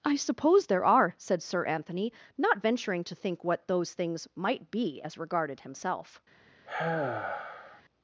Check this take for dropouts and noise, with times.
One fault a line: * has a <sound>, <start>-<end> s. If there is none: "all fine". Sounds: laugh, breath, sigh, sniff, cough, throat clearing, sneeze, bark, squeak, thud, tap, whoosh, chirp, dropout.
* has a sigh, 6.7-7.8 s